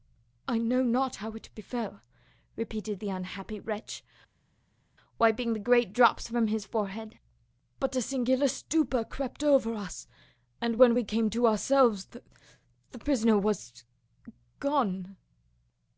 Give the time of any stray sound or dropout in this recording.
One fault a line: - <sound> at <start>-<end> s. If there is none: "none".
none